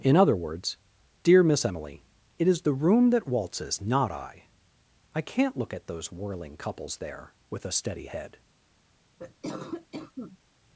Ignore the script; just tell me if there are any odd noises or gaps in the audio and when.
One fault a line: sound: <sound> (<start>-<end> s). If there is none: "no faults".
sound: cough (9.2-10.4 s)